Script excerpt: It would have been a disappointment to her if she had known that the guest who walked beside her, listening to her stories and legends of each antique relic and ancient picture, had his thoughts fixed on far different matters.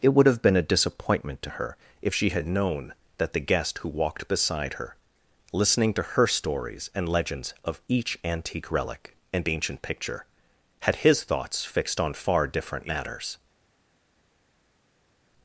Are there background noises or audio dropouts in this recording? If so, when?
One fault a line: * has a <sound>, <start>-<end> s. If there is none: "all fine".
all fine